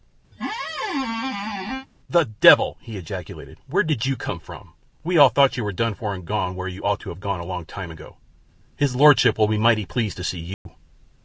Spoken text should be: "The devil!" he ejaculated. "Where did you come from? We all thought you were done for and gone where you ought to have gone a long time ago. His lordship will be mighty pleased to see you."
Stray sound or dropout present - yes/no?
yes